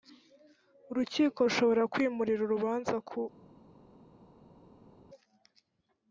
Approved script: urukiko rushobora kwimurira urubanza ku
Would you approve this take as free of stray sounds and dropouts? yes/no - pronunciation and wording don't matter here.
yes